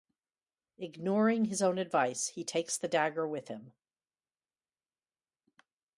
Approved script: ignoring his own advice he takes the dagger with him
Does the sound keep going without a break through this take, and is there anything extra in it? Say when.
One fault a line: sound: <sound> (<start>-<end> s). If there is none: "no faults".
no faults